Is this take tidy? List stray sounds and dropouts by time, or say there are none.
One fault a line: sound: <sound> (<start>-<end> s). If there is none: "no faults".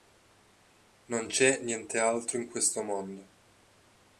no faults